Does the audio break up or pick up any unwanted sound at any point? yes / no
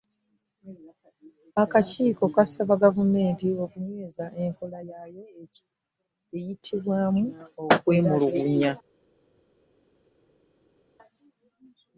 no